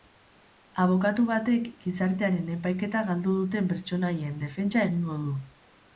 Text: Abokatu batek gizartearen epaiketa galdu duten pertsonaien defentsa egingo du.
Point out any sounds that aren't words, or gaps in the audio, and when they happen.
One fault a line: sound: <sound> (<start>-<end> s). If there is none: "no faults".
no faults